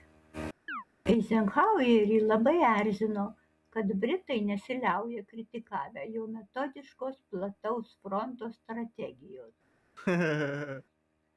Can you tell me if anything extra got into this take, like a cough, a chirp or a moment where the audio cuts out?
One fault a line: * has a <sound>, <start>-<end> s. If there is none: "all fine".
* has a chirp, 0.7-0.8 s
* has a laugh, 10.0-10.8 s